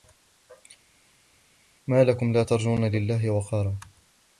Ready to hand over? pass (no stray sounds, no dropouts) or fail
pass